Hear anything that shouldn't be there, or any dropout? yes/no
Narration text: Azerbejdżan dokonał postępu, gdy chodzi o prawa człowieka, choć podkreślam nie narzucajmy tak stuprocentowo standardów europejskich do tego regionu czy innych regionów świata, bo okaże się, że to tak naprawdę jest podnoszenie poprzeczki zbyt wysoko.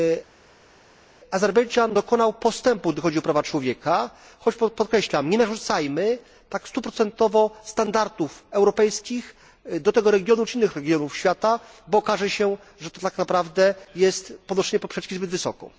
no